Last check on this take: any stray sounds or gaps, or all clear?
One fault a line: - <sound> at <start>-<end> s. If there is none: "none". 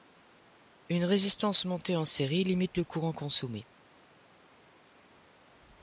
none